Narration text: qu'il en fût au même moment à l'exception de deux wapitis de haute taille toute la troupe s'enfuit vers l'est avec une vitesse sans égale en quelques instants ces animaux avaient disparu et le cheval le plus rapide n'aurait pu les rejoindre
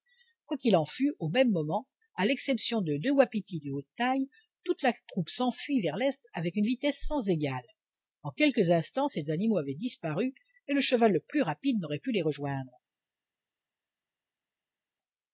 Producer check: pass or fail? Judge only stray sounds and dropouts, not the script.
pass